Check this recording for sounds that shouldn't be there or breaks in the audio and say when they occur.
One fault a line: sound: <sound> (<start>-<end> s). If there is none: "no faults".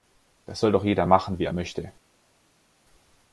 no faults